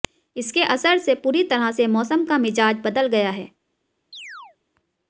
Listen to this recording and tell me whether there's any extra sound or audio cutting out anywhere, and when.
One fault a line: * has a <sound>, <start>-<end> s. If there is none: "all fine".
* has a chirp, 4.1-4.6 s